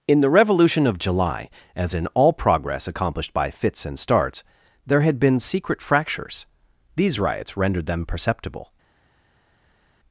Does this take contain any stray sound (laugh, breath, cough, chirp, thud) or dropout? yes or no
no